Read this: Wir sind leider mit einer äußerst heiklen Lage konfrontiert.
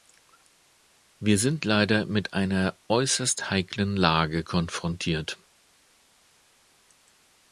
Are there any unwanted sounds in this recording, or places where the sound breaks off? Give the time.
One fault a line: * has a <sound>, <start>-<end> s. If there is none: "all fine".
all fine